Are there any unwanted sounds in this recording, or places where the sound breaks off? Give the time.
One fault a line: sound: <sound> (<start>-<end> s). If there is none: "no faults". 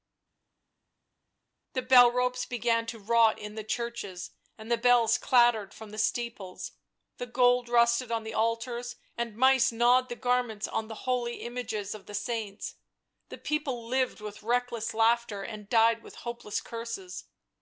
no faults